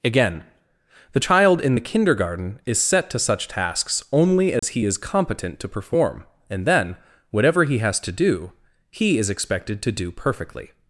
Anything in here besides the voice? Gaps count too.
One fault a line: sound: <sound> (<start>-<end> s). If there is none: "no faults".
sound: dropout (4.6-4.6 s)